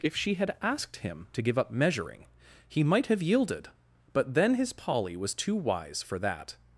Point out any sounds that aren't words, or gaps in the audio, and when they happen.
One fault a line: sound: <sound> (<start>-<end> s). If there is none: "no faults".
no faults